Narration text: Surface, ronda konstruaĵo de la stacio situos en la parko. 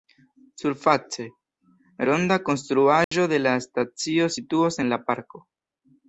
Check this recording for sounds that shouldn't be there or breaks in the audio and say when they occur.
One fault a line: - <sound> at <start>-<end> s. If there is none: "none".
- dropout at 3.0-3.1 s